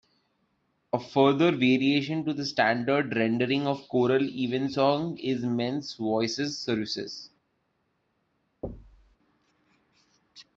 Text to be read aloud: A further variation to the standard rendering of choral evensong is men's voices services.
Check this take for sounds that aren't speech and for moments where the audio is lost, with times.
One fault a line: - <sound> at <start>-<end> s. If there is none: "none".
- thud at 8.6-9.2 s